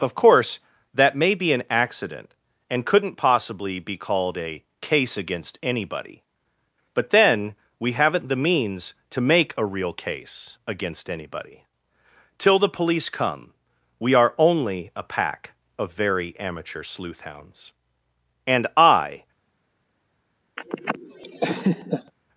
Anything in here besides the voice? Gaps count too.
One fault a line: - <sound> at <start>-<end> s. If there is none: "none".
- laugh at 20.6-22.1 s